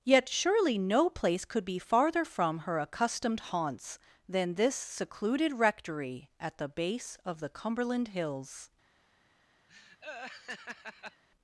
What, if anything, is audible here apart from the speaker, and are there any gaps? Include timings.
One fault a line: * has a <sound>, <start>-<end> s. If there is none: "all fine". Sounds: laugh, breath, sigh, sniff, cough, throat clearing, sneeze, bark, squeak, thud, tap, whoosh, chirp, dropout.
* has a laugh, 9.7-11.2 s